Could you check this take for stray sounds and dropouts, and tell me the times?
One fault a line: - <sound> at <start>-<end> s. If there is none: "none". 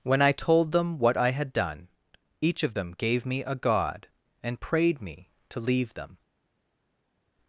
none